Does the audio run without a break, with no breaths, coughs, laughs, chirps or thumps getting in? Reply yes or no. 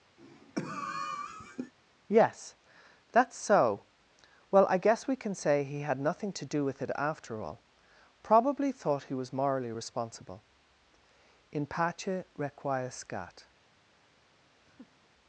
no